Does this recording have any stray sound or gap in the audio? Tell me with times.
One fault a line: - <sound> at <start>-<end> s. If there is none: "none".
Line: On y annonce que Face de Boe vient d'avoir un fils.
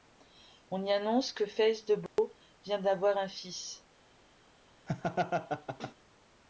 - dropout at 2.1-2.2 s
- laugh at 4.9-5.9 s